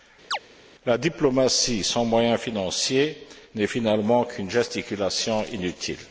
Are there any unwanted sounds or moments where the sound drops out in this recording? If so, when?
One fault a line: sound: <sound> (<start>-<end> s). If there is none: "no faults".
sound: chirp (0.3-0.4 s)